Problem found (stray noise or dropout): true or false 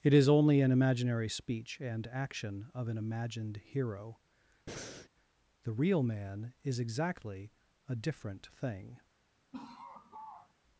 true